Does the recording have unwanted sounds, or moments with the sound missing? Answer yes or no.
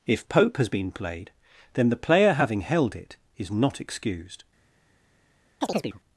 yes